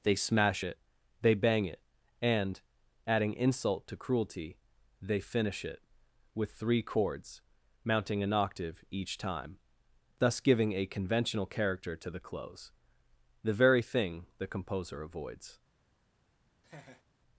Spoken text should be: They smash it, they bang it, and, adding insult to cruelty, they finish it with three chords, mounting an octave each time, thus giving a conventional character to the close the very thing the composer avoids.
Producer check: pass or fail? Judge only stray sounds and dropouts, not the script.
fail